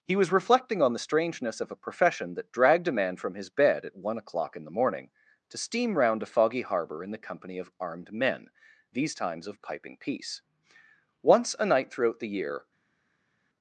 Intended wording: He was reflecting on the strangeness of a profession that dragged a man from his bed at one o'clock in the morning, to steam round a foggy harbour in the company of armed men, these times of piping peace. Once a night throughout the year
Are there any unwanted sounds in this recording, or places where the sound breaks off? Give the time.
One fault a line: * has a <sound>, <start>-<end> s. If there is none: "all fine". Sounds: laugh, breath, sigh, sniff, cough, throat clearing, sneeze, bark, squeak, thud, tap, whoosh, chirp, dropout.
all fine